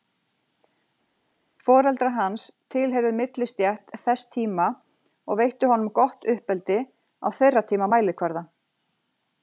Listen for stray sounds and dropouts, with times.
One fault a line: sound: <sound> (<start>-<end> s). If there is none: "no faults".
no faults